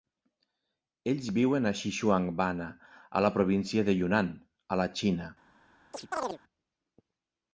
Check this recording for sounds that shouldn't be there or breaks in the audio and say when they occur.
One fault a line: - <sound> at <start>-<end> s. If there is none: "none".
- chirp at 5.9-6.4 s